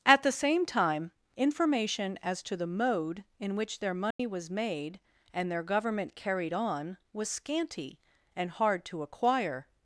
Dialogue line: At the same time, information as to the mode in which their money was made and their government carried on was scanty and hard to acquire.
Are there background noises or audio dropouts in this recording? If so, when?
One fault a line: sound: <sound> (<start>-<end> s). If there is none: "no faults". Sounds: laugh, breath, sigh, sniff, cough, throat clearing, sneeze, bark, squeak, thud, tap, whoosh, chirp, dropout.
sound: dropout (4.1-4.2 s)